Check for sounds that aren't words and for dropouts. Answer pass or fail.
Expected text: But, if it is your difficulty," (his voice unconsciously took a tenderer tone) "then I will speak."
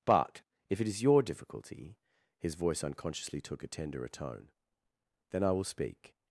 pass